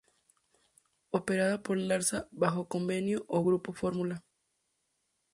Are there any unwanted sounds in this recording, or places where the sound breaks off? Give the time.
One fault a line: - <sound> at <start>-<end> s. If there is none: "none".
none